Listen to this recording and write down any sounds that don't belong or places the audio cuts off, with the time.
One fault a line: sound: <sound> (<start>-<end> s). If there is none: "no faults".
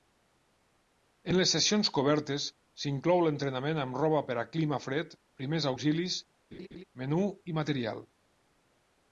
sound: laugh (6.5-6.8 s)